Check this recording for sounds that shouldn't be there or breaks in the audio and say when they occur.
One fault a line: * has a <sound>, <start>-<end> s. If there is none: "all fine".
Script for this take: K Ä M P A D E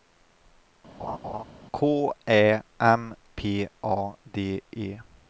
* has a laugh, 1.0-1.4 s